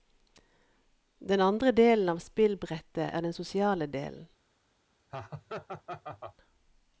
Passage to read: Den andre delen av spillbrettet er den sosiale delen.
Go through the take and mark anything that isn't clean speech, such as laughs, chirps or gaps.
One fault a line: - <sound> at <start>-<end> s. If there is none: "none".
- laugh at 5.1-6.4 s